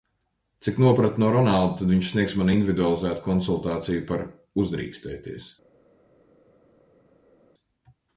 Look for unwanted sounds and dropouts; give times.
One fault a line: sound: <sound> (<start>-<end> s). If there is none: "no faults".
no faults